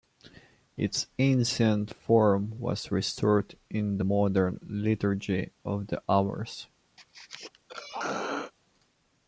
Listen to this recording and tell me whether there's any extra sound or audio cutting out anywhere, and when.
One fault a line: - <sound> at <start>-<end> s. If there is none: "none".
- throat clearing at 7.0-8.5 s